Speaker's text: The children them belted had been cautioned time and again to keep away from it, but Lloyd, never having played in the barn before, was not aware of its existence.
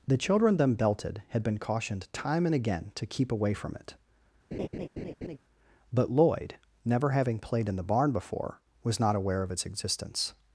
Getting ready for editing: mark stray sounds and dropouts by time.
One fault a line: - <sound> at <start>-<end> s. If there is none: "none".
- laugh at 4.5-5.4 s